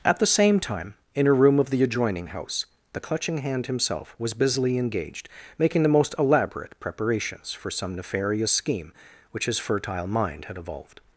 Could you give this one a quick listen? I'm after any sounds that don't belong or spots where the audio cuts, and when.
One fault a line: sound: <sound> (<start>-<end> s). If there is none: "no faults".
no faults